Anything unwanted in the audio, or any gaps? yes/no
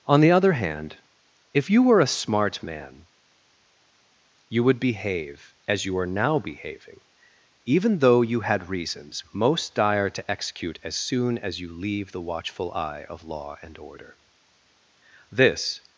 no